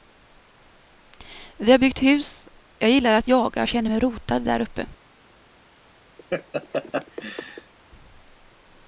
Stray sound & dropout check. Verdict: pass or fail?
fail